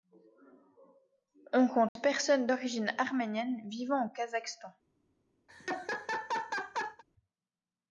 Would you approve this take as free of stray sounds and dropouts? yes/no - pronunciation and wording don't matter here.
no